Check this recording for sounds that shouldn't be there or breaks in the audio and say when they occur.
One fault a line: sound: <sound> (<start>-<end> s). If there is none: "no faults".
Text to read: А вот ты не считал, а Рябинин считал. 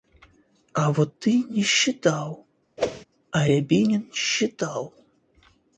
sound: whoosh (2.8-3.1 s)